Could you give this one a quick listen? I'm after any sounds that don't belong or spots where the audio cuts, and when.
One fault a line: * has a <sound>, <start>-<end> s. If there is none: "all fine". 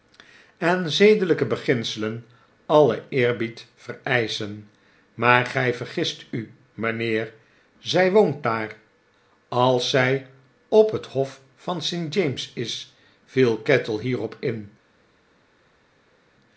all fine